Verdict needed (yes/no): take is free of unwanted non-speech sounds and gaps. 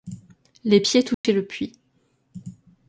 no